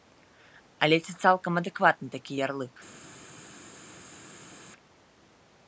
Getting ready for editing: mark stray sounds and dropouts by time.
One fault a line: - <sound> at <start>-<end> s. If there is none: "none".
none